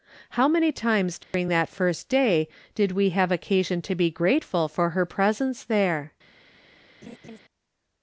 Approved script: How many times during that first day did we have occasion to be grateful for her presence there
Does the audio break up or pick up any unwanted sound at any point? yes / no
yes